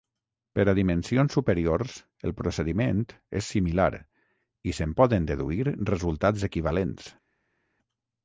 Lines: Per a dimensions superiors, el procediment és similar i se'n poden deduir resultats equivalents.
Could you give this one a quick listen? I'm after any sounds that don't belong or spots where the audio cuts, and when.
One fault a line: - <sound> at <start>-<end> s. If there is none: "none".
none